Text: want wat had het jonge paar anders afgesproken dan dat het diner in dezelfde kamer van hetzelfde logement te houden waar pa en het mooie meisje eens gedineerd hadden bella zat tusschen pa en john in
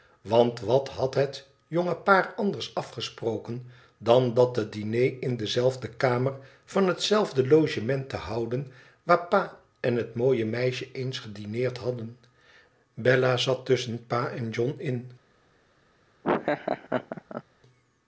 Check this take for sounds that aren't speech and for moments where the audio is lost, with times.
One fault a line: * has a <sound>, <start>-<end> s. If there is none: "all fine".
* has a laugh, 16.2-17.4 s